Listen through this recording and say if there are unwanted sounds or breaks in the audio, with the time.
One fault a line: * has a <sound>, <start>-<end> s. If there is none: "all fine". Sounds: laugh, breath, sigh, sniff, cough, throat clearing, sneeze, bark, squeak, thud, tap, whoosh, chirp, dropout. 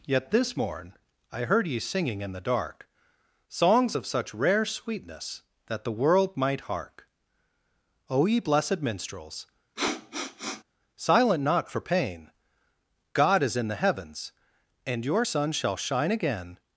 * has a sniff, 9.8-10.6 s